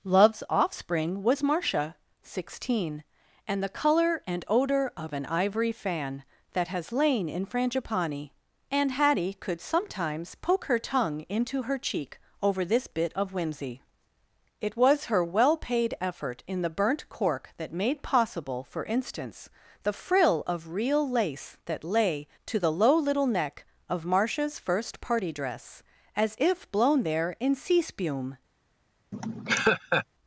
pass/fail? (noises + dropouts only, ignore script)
fail